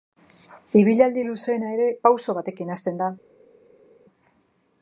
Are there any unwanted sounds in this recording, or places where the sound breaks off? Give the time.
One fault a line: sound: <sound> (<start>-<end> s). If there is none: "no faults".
no faults